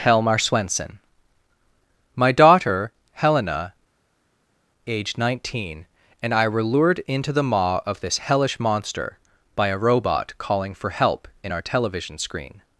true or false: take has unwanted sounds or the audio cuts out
false